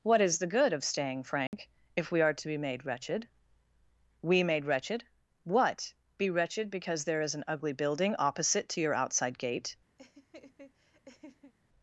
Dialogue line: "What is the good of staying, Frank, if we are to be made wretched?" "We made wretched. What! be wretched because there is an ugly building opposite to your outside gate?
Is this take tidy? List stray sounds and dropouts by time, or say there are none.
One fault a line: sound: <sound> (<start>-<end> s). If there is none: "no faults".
sound: dropout (1.5-1.5 s)
sound: laugh (10.0-11.5 s)